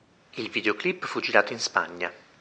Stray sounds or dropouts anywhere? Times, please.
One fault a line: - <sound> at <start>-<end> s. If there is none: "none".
none